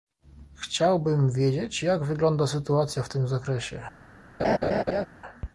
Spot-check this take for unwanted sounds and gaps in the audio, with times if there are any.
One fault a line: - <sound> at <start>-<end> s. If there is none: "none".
- laugh at 4.4-5.1 s